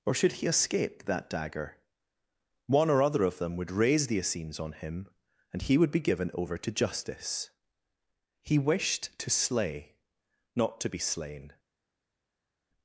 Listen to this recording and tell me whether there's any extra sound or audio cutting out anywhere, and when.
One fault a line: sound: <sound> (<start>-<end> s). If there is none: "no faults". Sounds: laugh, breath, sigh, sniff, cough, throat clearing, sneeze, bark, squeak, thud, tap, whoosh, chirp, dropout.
no faults